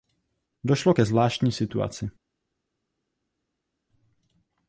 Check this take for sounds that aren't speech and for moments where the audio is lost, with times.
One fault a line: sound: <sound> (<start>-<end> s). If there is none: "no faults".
no faults